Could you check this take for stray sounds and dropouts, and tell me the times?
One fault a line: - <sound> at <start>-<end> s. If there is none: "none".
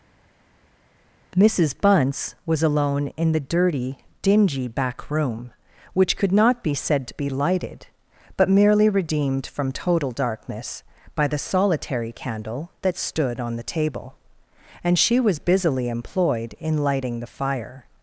none